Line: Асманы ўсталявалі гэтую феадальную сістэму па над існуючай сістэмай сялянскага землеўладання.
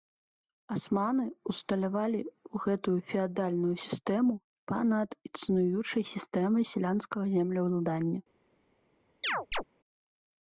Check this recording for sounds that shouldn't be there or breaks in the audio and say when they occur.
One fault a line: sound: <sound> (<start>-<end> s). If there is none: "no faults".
sound: chirp (9.2-9.6 s)